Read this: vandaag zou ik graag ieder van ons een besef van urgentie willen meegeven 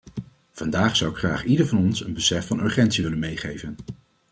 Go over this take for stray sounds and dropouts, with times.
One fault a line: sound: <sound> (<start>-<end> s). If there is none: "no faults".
no faults